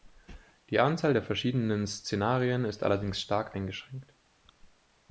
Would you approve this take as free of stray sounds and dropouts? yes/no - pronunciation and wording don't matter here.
yes